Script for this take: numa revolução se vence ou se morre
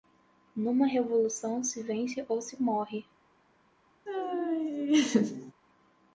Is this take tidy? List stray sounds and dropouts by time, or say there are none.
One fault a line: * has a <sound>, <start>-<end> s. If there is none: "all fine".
* has a laugh, 4.1-5.5 s